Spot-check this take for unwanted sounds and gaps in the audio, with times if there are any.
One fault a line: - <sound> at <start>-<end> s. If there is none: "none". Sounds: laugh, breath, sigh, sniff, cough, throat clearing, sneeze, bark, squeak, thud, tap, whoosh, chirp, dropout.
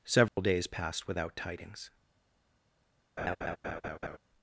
- dropout at 0.3-0.4 s
- laugh at 3.2-4.2 s